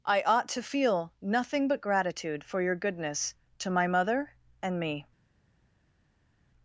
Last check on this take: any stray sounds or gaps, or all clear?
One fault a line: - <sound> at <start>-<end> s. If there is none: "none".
none